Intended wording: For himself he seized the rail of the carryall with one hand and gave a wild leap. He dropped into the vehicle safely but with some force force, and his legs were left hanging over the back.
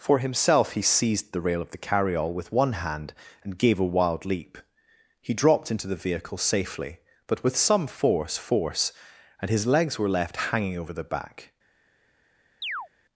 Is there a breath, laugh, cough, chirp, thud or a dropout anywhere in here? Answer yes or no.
yes